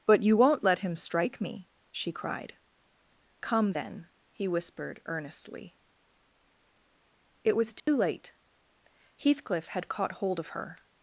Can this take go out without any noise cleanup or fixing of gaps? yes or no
no